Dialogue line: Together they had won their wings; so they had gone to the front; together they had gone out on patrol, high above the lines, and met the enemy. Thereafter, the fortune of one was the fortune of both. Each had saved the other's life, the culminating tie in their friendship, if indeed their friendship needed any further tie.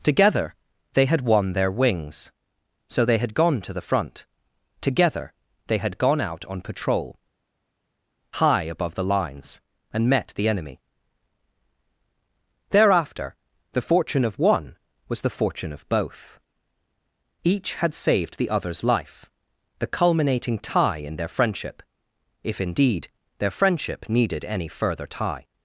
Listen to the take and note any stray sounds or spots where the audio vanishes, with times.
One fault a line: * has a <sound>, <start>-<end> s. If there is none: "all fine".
all fine